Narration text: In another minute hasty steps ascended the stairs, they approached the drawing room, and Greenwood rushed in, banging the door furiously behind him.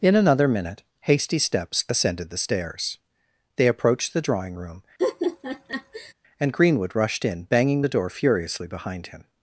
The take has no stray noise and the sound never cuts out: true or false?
false